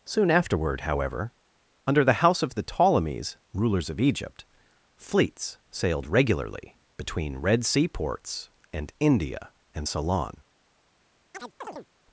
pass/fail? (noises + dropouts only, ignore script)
fail